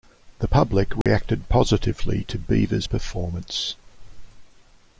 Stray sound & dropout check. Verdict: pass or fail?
fail